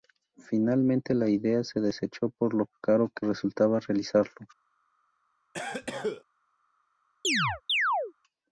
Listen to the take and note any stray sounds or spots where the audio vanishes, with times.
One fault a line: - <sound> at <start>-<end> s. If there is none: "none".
- cough at 5.5-6.2 s
- chirp at 7.2-8.1 s